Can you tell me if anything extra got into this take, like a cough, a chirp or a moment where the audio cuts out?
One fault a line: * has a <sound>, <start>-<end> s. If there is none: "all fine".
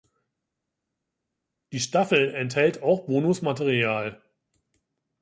all fine